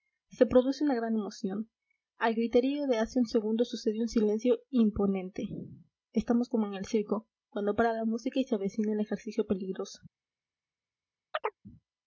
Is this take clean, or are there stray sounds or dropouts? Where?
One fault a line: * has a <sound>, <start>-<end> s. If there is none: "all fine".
* has a chirp, 11.3-11.6 s